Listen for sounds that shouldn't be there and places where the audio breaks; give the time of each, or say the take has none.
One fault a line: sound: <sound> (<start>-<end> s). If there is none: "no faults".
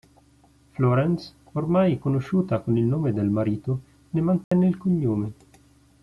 sound: dropout (4.4-4.5 s)